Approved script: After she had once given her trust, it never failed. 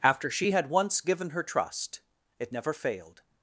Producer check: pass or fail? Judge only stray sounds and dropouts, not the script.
pass